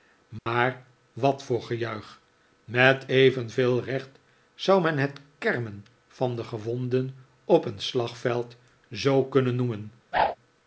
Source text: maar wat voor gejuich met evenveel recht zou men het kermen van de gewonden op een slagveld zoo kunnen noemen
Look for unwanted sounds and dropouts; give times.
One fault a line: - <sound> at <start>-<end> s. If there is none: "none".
- dropout at 0.4-0.5 s
- whoosh at 10.1-10.4 s